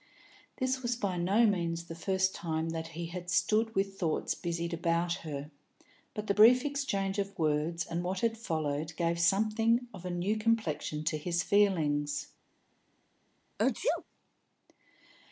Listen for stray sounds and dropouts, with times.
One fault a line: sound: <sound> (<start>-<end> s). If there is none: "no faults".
sound: sneeze (13.6-14.0 s)